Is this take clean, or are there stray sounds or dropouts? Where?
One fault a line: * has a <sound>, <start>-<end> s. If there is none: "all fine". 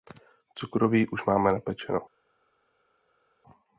all fine